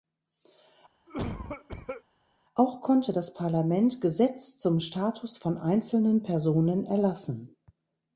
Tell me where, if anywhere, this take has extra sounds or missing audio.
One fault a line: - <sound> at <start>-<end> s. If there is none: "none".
- cough at 1.1-2.0 s